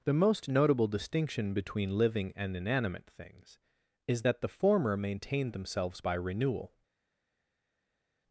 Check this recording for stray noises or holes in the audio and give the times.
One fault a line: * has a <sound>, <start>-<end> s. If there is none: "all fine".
all fine